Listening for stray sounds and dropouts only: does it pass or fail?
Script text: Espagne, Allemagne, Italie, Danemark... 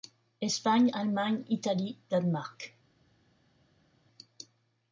pass